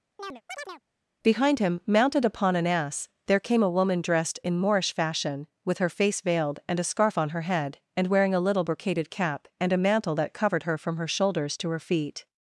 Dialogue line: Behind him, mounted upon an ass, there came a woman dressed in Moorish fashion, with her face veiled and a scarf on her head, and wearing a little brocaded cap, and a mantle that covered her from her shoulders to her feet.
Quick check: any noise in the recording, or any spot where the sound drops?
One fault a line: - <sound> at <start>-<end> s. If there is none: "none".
- chirp at 0.2-0.8 s